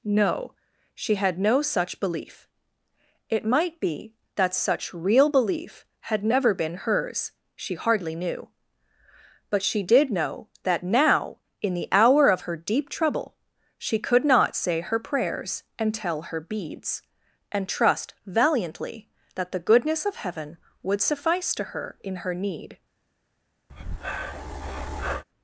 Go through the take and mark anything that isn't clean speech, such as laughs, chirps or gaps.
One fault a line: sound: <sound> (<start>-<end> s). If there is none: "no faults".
sound: breath (23.7-25.2 s)